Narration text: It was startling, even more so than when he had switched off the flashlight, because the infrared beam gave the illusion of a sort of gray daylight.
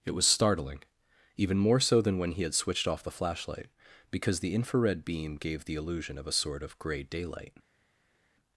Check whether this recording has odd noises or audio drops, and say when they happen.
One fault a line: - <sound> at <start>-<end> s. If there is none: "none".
none